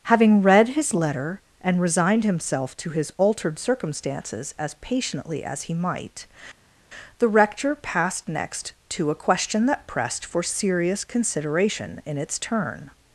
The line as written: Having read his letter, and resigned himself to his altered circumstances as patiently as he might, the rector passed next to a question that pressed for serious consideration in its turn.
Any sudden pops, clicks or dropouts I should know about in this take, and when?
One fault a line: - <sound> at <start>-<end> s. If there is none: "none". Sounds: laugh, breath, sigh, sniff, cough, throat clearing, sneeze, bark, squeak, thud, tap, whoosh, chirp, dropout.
none